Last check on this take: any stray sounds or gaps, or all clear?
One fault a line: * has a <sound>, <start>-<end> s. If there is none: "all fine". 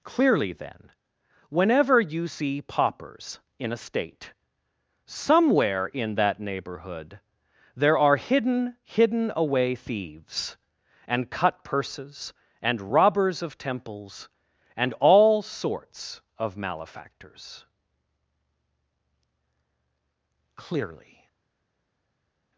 all fine